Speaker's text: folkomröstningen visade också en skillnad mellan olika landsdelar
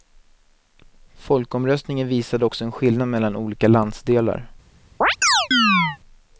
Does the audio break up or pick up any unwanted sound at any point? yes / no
yes